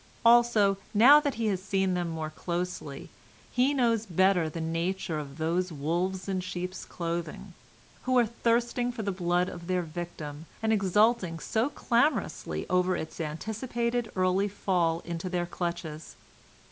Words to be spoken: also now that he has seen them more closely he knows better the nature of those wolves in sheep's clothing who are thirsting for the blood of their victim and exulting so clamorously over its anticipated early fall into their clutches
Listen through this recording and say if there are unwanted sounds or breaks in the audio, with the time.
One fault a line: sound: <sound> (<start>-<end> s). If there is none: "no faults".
no faults